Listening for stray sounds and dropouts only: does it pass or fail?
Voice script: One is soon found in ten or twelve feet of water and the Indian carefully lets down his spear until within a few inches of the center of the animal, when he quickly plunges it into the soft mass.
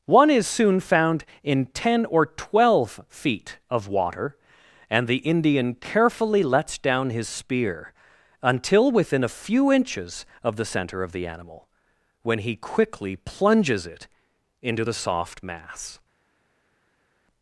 pass